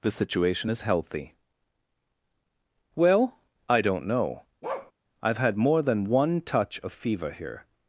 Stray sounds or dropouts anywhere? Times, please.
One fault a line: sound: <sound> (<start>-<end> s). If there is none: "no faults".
sound: bark (4.6-4.9 s)